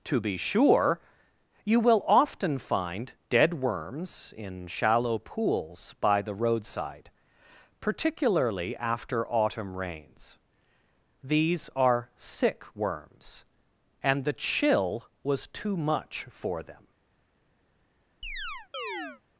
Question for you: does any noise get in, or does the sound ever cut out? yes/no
yes